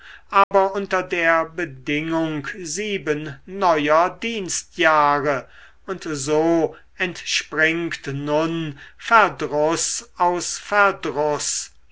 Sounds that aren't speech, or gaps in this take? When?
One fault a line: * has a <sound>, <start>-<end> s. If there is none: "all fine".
* has a dropout, 0.4-0.5 s